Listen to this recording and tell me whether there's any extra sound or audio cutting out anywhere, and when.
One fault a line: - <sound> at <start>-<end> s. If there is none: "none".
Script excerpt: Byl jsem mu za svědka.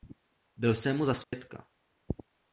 - dropout at 1.2-1.3 s